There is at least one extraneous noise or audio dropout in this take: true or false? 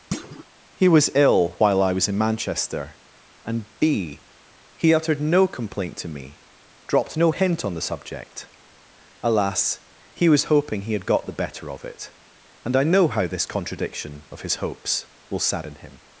true